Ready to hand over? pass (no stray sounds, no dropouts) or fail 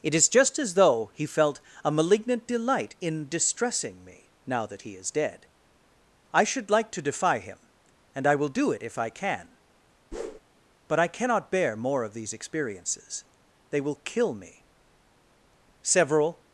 fail